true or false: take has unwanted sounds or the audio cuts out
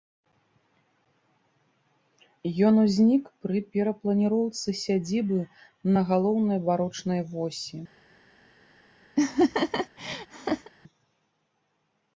true